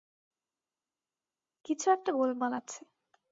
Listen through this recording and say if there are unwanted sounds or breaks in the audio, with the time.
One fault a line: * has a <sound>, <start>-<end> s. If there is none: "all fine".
all fine